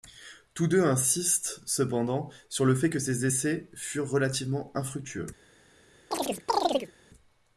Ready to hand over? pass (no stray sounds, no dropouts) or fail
fail